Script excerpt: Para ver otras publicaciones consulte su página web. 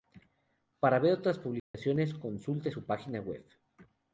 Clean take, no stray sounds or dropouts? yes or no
no